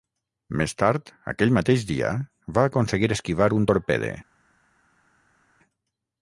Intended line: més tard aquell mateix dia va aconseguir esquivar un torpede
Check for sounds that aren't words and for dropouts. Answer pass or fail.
pass